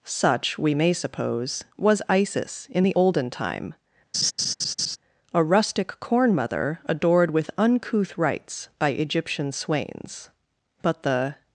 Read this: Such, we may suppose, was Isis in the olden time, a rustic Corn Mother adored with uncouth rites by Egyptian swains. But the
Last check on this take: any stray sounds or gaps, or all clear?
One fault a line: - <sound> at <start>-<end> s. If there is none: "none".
- laugh at 4.1-5.0 s